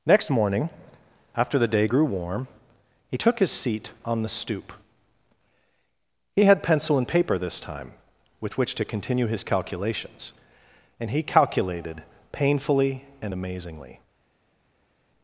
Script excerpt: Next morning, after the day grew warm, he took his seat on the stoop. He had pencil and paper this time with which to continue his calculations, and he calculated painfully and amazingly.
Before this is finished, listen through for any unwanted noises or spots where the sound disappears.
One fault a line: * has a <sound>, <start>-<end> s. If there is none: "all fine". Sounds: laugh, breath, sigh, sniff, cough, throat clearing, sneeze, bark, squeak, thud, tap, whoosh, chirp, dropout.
all fine